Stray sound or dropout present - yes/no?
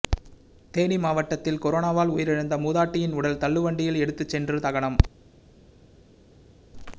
no